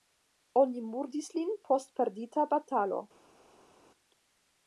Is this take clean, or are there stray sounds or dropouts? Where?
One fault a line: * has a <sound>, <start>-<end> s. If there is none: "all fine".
all fine